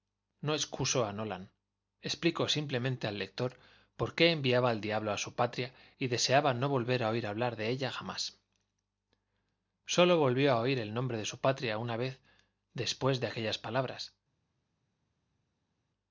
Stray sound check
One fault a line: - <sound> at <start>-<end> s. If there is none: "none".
none